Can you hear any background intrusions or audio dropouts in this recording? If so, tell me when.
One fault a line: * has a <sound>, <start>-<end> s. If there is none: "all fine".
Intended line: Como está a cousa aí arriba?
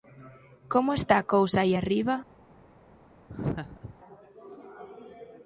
* has a laugh, 3.3-4.0 s